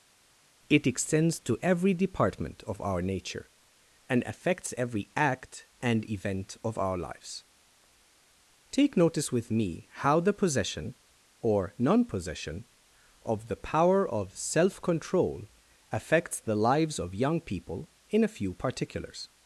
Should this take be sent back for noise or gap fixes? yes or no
no